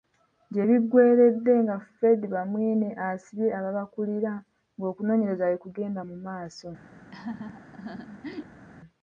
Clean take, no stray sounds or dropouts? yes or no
no